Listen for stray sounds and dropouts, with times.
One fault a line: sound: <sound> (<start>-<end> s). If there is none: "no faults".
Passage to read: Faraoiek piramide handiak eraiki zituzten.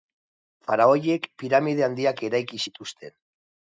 no faults